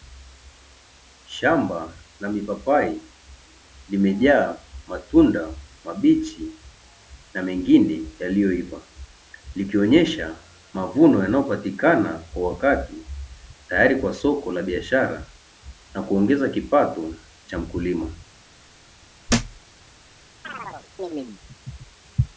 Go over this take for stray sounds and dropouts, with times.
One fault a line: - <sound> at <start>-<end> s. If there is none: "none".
- thud at 19.3-19.6 s
- chirp at 20.4-21.4 s